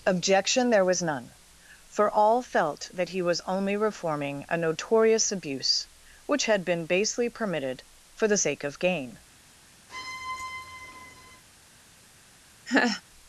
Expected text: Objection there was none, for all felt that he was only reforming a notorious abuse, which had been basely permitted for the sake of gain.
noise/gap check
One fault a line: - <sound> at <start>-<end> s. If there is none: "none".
- squeak at 9.9-11.4 s
- laugh at 12.7-13.0 s